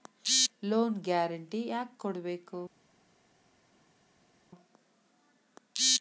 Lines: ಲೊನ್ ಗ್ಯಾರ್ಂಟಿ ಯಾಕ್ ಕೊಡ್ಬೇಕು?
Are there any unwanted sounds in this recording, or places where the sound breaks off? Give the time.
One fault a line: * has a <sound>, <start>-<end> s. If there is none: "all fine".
all fine